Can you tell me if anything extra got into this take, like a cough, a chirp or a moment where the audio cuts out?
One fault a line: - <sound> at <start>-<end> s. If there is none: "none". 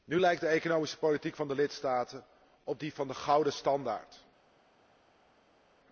none